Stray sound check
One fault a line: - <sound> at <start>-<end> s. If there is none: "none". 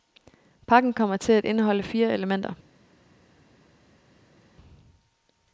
none